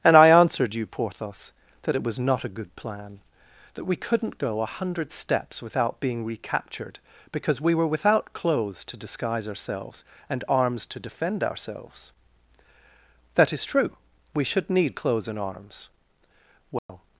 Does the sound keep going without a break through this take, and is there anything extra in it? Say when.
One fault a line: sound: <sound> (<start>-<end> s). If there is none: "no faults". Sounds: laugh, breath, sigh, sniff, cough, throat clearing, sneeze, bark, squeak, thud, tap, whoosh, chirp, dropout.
sound: dropout (16.8-16.9 s)